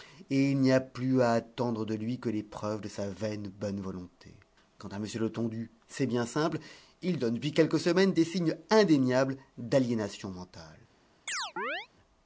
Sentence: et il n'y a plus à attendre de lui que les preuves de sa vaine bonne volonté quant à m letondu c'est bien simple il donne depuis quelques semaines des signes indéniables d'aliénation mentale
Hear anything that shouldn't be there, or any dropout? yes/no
yes